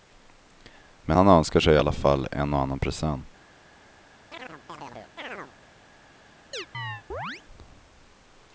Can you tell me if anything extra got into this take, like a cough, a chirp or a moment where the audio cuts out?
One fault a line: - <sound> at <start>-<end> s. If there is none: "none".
- chirp at 4.3-5.5 s
- chirp at 6.5-7.4 s